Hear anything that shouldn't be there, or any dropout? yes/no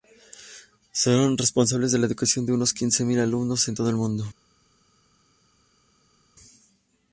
no